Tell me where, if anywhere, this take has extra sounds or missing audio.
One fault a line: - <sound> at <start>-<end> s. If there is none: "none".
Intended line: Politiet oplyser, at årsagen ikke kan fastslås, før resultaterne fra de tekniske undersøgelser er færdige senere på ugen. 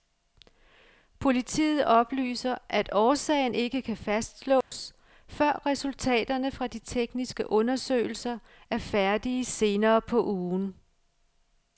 - dropout at 4.6-4.7 s